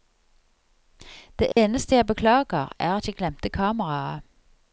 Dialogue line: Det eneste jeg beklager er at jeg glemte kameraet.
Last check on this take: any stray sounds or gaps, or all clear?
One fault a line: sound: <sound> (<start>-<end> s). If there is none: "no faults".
sound: dropout (1.5-1.6 s)